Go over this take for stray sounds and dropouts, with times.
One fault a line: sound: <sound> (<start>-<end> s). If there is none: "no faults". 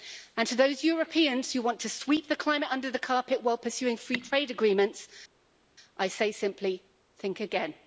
no faults